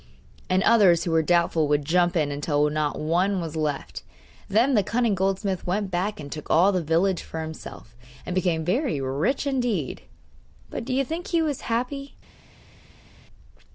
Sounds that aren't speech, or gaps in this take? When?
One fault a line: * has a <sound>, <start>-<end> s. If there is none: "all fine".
all fine